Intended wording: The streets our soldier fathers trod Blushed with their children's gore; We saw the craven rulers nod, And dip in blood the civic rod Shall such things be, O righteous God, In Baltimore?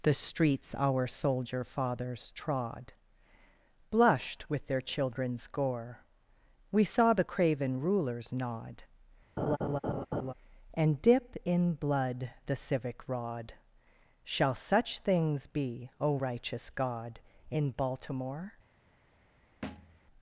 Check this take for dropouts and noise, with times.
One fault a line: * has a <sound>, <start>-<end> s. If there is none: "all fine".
* has a laugh, 9.4-10.3 s
* has a thud, 19.6-20.0 s